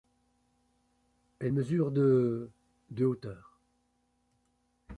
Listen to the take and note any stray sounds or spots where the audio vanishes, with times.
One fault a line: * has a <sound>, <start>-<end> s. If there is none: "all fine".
all fine